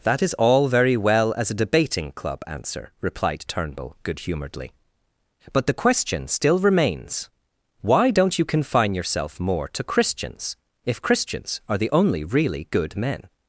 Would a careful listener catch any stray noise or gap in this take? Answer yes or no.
no